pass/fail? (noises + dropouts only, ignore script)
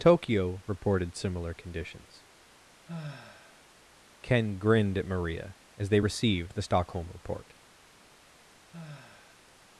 fail